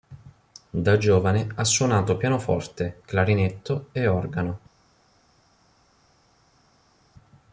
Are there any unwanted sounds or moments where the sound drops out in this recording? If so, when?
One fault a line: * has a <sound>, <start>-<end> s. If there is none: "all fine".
all fine